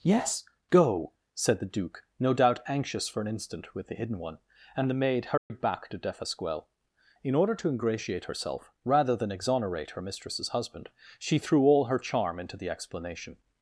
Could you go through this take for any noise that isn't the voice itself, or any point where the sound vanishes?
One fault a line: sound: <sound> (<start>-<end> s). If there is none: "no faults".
sound: dropout (5.4-5.5 s)